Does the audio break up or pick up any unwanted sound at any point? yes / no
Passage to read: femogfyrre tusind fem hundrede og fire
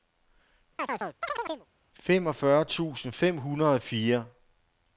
yes